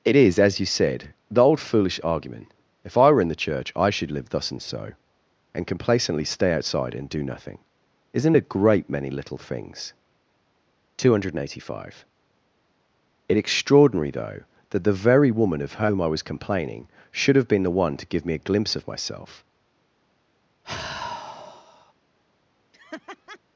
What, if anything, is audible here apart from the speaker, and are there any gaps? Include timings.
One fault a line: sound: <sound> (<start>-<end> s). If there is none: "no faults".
sound: sigh (20.6-21.9 s)
sound: laugh (22.7-23.4 s)